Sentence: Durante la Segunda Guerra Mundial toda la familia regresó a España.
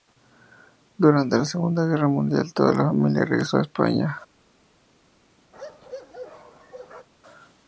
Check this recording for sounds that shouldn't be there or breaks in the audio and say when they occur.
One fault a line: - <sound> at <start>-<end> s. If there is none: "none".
- bark at 5.5-7.1 s